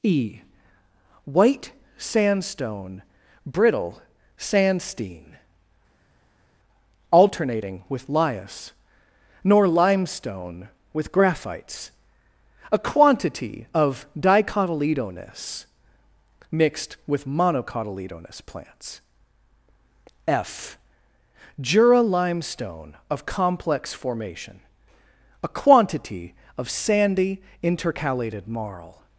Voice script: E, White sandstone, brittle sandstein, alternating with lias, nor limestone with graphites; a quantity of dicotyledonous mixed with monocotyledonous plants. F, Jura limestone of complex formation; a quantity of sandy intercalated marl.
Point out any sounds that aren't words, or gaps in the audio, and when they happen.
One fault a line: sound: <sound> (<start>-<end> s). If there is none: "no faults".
no faults